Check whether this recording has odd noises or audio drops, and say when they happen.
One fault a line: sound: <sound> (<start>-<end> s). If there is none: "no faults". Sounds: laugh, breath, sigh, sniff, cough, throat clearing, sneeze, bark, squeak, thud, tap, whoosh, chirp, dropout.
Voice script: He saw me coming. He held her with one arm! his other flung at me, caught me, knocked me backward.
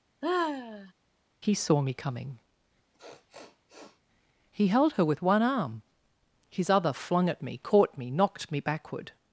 sound: sigh (0.2-0.9 s)
sound: sniff (2.9-4.0 s)